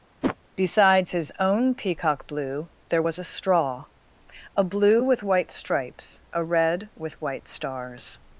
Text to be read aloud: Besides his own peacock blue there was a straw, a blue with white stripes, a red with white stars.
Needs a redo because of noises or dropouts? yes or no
yes